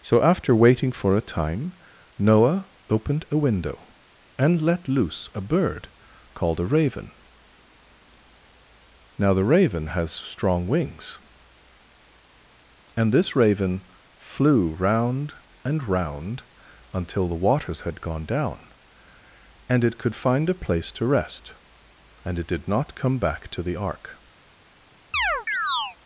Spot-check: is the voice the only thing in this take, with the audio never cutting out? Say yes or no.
no